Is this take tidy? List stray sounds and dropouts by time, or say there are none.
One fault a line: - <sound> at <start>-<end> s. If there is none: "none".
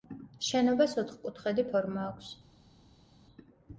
none